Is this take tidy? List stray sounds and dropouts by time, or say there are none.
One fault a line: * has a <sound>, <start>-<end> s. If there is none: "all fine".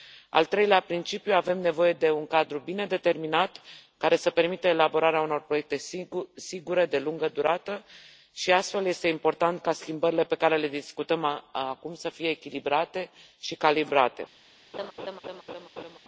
* has a laugh, 14.7-16.0 s